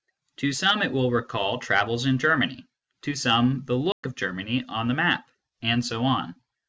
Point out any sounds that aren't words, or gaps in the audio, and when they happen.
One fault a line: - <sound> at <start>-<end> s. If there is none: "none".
- dropout at 3.9-4.0 s